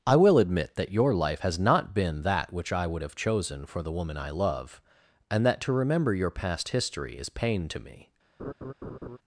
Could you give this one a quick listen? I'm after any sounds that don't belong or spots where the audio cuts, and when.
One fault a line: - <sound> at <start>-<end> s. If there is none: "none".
- laugh at 8.4-9.2 s